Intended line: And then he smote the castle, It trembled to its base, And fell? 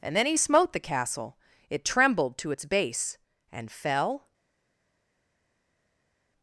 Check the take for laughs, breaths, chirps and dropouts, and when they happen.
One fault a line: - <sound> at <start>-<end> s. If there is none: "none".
none